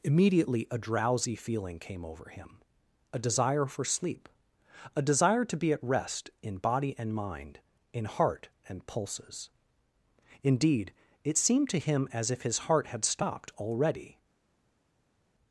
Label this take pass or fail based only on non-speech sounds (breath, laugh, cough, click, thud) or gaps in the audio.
pass